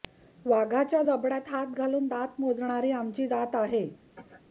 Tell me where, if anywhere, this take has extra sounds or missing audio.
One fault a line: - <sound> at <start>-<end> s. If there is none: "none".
- cough at 4.1-4.4 s